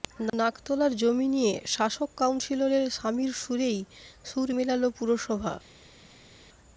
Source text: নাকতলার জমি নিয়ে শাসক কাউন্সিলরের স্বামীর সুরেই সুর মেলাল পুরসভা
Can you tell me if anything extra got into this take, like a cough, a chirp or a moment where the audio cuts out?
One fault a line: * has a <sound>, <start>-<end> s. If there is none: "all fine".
all fine